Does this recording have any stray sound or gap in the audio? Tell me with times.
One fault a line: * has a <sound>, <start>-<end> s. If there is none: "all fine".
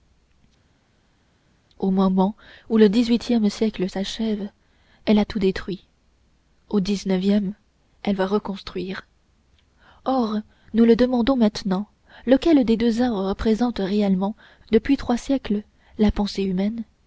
all fine